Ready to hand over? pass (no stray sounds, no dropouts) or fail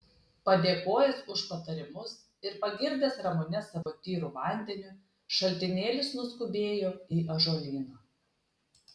fail